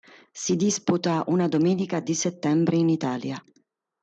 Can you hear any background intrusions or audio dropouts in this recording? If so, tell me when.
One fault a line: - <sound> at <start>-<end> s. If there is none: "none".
none